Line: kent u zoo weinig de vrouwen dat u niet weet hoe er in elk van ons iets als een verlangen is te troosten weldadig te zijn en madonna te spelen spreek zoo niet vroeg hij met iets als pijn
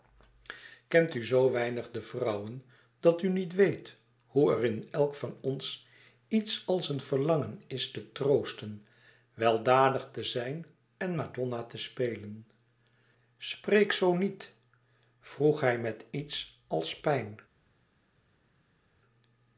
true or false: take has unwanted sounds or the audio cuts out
false